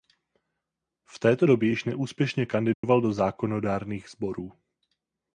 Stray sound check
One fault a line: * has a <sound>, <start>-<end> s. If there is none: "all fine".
* has a dropout, 2.7-2.8 s